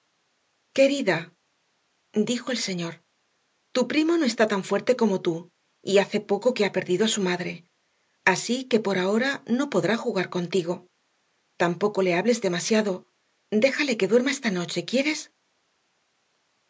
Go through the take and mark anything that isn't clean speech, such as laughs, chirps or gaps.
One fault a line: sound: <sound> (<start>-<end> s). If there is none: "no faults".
no faults